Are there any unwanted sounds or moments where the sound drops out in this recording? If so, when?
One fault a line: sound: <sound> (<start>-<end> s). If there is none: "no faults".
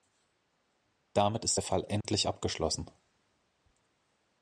sound: dropout (2.0-2.0 s)